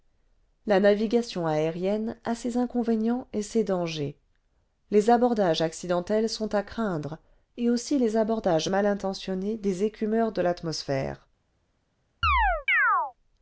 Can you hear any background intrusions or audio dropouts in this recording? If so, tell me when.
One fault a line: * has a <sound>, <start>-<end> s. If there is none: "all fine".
* has a chirp, 12.2-13.1 s